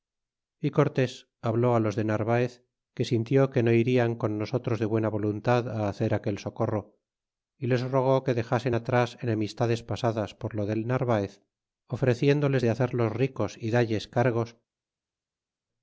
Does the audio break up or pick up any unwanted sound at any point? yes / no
no